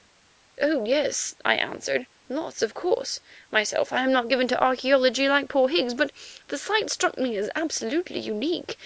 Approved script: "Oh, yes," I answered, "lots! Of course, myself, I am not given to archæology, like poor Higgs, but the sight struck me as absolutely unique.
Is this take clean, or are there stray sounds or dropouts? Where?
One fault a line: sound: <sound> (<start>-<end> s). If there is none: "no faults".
no faults